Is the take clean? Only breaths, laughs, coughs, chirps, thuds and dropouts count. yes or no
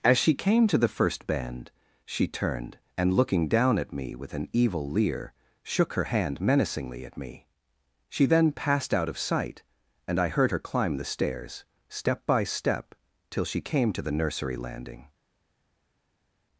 yes